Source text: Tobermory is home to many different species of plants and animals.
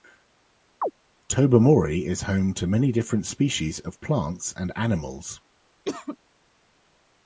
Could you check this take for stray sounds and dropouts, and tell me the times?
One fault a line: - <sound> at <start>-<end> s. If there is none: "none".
- chirp at 0.8-0.9 s
- cough at 5.9-6.2 s